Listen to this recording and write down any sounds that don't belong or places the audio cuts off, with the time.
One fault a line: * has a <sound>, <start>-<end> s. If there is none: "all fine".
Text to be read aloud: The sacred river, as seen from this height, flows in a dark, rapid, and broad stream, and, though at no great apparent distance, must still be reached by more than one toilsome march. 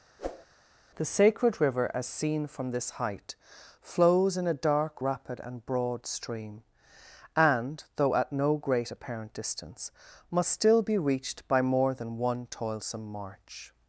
* has a whoosh, 0.2-0.5 s